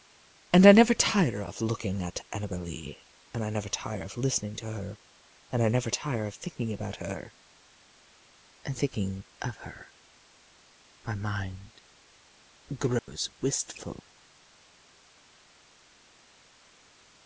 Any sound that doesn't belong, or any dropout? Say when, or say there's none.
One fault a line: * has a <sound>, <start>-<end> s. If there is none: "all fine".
* has a dropout, 13.0-13.1 s